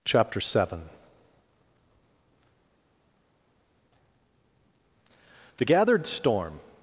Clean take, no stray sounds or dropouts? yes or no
yes